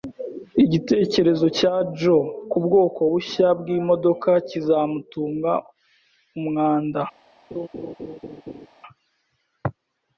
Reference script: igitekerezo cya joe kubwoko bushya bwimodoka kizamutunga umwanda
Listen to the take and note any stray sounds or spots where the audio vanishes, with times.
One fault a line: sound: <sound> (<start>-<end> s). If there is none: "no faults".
sound: laugh (7.5-8.7 s)